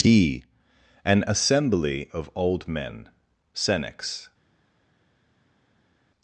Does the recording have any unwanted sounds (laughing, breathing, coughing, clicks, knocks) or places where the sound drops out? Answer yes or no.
no